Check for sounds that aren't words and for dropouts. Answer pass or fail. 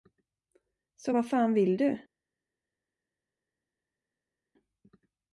pass